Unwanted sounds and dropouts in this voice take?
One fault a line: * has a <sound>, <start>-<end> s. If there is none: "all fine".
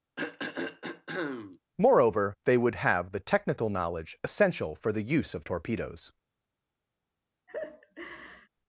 * has a throat clearing, 0.2-1.6 s
* has a laugh, 7.5-8.5 s